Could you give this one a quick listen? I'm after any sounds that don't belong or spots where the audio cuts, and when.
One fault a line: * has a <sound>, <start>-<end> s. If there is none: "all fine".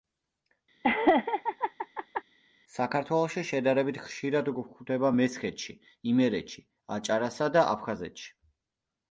* has a laugh, 0.8-2.2 s